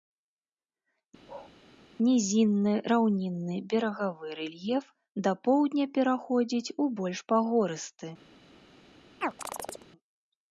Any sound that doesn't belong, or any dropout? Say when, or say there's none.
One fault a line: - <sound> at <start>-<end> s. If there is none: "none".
- bark at 1.2-1.5 s
- chirp at 9.2-9.9 s